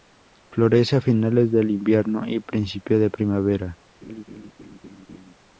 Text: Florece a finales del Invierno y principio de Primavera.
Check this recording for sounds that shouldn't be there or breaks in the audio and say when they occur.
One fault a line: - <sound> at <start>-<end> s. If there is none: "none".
- laugh at 4.0-5.3 s